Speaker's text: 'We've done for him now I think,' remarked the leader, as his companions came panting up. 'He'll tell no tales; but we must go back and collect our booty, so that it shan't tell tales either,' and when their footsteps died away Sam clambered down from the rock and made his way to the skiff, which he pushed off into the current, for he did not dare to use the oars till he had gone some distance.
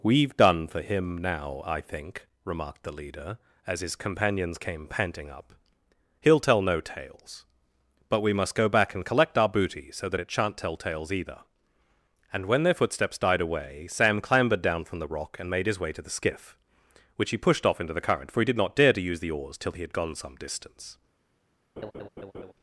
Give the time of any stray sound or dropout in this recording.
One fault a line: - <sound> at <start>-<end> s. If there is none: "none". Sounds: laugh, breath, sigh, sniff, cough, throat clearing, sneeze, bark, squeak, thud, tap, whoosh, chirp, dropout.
- laugh at 21.8-22.5 s